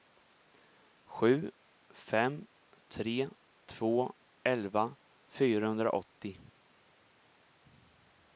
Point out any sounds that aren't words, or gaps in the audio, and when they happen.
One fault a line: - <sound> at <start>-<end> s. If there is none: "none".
none